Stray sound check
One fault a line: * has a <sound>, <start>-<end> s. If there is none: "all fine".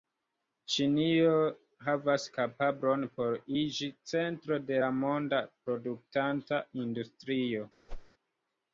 * has a whoosh, 7.9-8.1 s